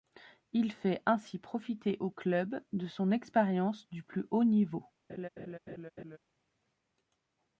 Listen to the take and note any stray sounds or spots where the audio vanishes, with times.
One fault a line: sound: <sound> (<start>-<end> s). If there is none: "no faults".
sound: laugh (5.1-6.2 s)